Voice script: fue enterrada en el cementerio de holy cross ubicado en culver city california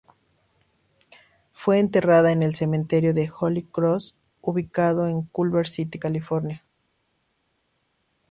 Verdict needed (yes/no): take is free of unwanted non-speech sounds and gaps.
yes